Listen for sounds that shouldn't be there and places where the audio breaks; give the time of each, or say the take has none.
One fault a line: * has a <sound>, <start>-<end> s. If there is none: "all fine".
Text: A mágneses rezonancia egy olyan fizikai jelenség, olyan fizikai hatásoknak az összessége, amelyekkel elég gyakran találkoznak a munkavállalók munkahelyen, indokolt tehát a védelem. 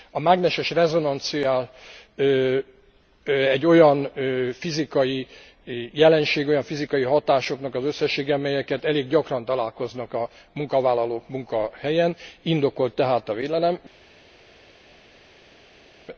all fine